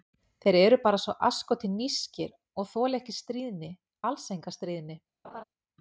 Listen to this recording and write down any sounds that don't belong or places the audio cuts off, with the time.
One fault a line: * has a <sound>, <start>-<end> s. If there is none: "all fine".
* has a laugh, 5.2-5.4 s